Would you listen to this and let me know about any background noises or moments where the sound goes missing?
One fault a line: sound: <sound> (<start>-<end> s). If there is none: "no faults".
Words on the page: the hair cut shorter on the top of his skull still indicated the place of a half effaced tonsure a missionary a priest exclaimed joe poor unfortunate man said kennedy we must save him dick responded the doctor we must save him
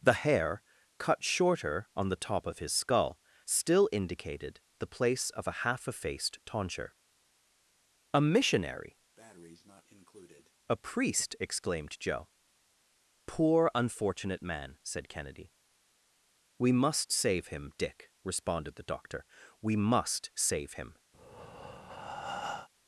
sound: breath (9.2-10.5 s)
sound: breath (21.1-22.7 s)